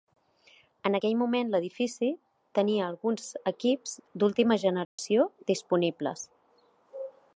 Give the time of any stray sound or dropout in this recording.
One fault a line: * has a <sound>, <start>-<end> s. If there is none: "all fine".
* has a dropout, 4.8-5.0 s